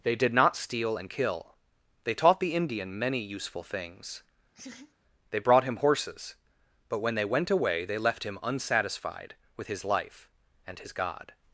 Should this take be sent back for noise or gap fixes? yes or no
yes